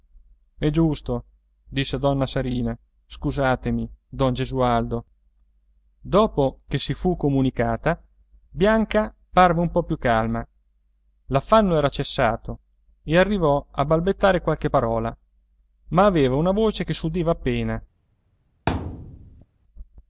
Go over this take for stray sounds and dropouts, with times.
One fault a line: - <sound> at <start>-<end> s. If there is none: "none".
- thud at 18.7-19.5 s